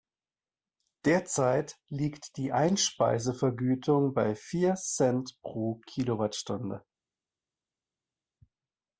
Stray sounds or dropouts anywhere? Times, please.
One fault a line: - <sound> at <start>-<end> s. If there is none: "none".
none